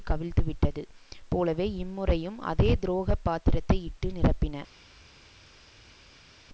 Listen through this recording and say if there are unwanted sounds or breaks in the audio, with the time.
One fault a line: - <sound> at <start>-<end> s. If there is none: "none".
none